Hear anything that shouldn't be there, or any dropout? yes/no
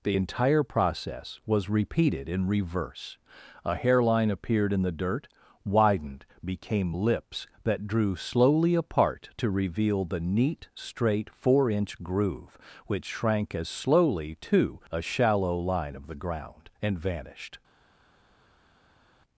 no